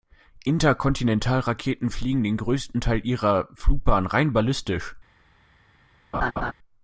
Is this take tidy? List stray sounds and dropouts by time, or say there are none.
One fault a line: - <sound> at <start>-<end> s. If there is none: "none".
- laugh at 6.1-6.5 s